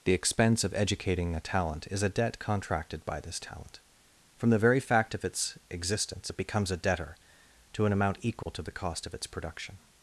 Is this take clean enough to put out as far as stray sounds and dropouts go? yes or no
no